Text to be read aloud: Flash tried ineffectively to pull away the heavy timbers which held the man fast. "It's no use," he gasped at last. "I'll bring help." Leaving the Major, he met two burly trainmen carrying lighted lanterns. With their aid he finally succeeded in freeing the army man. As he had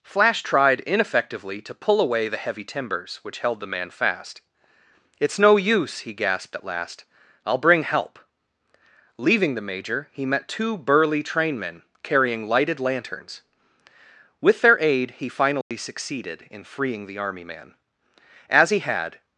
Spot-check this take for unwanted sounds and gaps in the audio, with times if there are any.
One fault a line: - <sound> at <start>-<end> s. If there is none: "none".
- dropout at 15.6-15.7 s